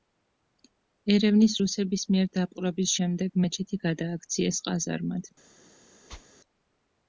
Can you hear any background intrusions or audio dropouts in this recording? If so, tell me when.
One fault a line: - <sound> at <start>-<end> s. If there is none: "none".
- whoosh at 6.1-6.3 s